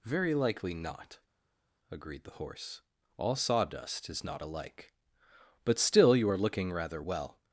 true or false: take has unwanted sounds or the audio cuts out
false